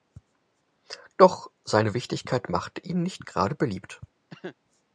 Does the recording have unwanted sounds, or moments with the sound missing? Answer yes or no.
yes